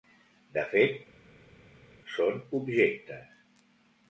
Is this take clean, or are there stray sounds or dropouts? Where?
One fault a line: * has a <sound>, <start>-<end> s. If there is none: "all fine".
all fine